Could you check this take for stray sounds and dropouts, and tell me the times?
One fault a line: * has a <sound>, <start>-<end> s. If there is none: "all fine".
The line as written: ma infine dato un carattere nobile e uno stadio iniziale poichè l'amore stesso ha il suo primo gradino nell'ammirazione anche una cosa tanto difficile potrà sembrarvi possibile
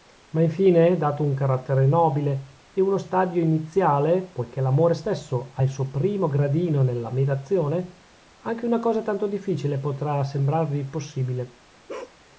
* has a bark, 11.9-12.2 s